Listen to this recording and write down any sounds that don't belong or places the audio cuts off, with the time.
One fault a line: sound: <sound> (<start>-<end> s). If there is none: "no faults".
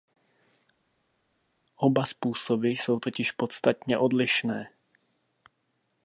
no faults